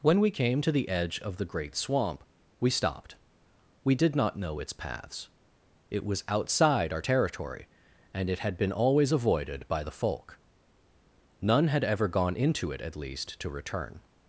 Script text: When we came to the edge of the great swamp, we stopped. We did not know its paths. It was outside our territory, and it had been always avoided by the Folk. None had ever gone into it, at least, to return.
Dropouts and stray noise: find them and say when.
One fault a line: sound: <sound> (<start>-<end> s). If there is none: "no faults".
no faults